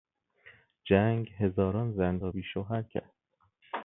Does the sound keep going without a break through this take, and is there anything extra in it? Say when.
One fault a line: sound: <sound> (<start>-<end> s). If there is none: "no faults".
no faults